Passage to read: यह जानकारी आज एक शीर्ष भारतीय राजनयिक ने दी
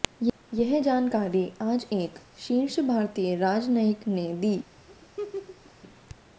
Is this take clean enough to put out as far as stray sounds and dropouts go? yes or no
no